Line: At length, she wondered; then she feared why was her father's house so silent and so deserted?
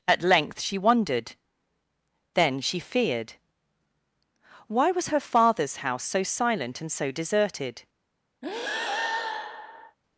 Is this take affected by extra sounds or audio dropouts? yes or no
yes